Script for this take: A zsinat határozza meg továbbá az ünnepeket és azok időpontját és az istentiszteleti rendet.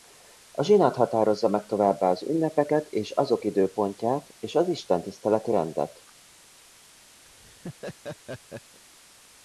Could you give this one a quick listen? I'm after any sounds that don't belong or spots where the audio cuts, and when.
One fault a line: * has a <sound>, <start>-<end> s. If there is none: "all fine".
* has a laugh, 7.3-8.8 s